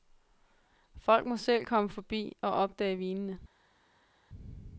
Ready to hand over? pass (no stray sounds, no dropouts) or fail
pass